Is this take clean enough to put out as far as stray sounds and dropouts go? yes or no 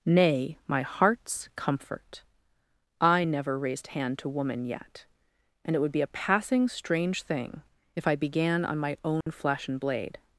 no